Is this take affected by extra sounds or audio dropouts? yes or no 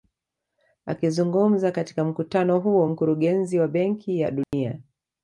yes